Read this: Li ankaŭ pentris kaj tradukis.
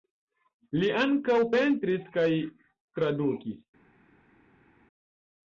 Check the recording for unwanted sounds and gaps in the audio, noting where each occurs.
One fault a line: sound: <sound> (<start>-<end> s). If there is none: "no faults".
no faults